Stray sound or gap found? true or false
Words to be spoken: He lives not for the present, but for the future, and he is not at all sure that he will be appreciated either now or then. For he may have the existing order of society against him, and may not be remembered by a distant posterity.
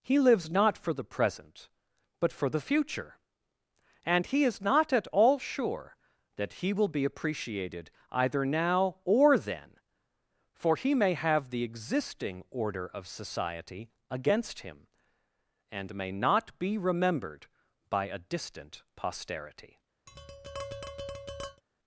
true